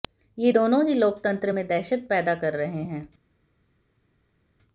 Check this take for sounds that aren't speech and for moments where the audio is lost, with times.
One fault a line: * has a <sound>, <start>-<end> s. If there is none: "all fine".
all fine